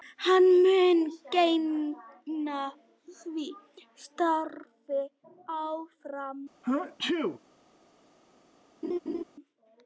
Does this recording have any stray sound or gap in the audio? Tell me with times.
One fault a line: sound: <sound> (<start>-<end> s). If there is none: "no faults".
sound: sneeze (6.6-7.4 s)
sound: laugh (8.8-9.2 s)